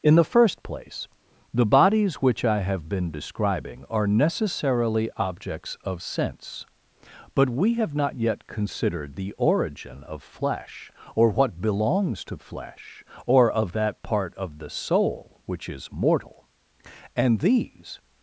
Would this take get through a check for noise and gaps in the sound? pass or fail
pass